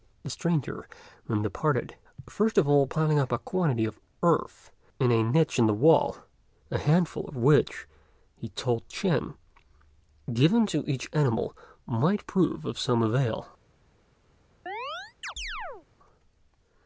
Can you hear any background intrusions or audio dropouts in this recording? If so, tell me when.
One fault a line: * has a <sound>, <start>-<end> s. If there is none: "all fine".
* has a chirp, 14.7-15.9 s